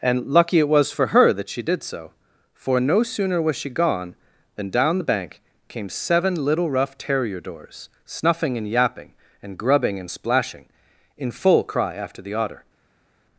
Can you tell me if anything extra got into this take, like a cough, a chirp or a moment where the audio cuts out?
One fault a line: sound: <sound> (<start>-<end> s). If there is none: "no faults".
no faults